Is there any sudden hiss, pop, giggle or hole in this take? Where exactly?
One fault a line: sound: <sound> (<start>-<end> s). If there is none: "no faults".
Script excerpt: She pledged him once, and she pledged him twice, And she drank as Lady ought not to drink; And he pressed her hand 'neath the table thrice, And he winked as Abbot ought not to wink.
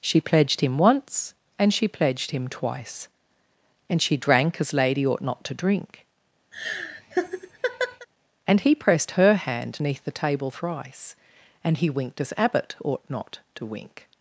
sound: laugh (6.5-8.1 s)